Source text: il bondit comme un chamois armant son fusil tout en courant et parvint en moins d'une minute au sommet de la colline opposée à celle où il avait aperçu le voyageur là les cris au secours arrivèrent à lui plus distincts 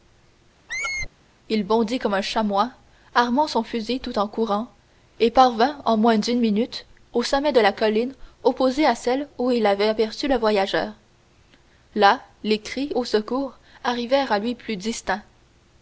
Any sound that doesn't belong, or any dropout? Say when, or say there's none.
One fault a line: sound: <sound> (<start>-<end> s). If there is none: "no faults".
sound: squeak (0.7-1.1 s)